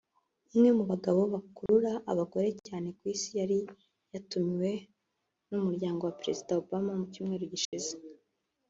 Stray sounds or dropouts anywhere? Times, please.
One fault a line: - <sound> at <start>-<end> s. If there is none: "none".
- dropout at 1.7-1.7 s
- dropout at 7.6-7.7 s